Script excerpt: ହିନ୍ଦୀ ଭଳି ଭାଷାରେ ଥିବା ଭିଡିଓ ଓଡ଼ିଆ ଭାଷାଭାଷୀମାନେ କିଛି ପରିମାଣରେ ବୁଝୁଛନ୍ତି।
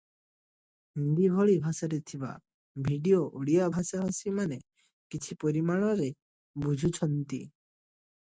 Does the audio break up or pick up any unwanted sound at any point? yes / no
no